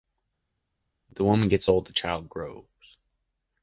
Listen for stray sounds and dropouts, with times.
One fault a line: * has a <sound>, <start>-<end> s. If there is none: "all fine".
all fine